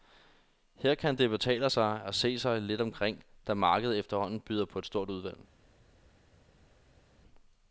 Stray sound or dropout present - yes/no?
no